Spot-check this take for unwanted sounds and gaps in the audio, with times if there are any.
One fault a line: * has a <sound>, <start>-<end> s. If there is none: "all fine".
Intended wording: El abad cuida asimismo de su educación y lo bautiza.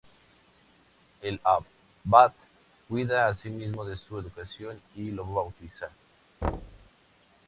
* has a thud, 6.4-6.9 s